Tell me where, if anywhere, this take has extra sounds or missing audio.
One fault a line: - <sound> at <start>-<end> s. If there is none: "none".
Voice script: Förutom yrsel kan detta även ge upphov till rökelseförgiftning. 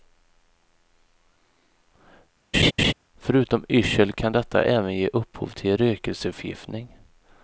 - laugh at 2.5-2.9 s